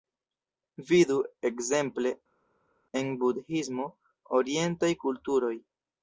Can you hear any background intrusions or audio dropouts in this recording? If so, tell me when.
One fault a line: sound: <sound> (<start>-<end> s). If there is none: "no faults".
no faults